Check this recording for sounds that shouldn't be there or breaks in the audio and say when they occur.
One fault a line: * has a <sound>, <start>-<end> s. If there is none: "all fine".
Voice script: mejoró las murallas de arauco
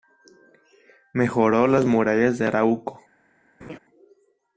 * has a laugh, 3.6-3.8 s